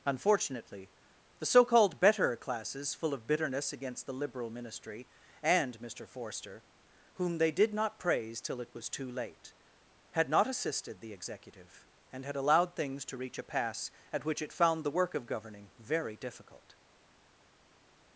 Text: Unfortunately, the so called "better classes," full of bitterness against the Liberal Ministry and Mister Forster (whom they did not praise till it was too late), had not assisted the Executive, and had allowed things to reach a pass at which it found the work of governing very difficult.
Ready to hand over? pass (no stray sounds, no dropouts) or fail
pass